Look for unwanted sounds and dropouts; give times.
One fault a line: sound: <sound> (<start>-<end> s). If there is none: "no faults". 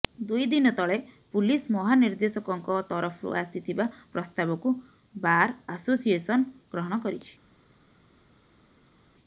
no faults